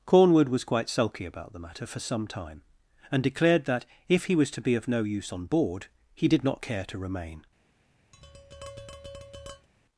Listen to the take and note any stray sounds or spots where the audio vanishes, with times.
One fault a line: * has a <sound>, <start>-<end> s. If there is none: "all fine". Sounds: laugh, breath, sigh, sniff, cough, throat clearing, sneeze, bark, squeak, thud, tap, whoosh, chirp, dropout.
* has a tap, 8.1-9.7 s